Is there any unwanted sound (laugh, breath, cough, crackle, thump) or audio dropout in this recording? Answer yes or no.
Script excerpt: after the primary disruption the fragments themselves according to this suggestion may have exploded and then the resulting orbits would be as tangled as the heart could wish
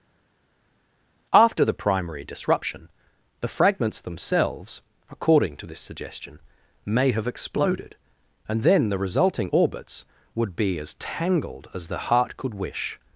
no